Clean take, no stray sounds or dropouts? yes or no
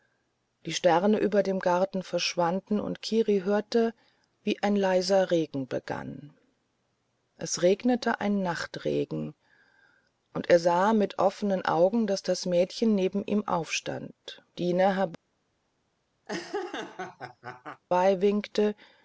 no